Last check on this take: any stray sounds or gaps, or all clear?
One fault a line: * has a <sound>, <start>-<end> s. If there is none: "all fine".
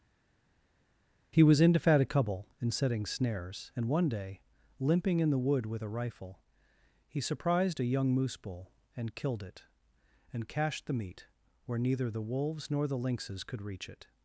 all fine